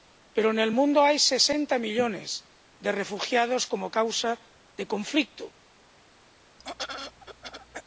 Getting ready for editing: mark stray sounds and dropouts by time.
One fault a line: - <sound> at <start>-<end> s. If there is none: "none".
- throat clearing at 6.6-7.8 s